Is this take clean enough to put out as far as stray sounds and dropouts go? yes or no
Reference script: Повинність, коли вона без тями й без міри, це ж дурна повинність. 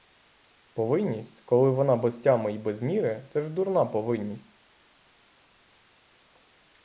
yes